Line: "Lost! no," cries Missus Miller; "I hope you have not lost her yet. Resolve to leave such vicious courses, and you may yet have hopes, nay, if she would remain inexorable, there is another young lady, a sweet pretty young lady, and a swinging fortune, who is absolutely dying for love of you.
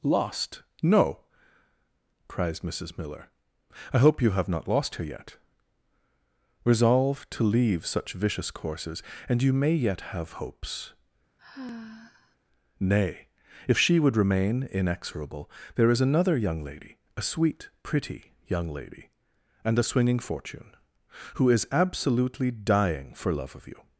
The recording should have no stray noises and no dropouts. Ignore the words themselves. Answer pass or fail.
fail